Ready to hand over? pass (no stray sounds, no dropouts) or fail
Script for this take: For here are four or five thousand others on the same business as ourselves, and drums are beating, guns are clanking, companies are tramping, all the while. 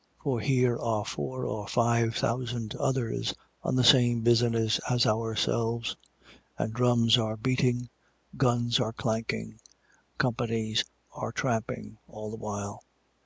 pass